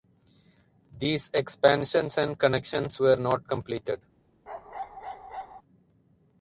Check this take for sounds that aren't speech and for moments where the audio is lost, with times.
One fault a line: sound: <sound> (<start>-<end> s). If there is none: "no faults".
sound: bark (4.5-5.6 s)